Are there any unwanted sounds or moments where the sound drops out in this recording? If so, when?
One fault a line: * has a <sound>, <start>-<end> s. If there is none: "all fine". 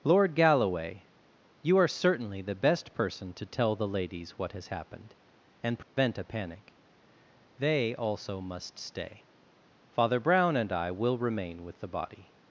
* has a dropout, 5.8-6.0 s